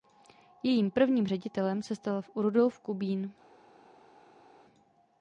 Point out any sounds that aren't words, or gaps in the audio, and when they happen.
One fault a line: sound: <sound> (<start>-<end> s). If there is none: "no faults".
no faults